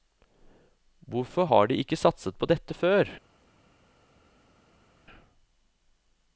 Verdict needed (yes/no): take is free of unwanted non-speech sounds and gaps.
yes